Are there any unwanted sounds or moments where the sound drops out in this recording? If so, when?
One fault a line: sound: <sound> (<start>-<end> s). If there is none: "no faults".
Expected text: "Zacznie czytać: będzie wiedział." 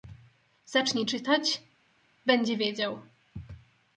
no faults